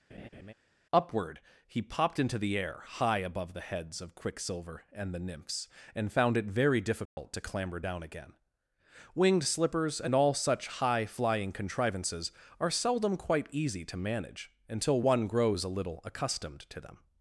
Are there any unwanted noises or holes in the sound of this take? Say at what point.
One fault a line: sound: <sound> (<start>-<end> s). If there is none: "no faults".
sound: laugh (0.1-0.5 s)
sound: dropout (7.1-7.2 s)